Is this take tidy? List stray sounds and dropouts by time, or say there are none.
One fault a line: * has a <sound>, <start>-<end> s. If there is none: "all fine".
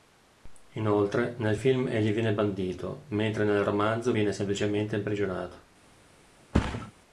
* has a thud, 6.5-6.9 s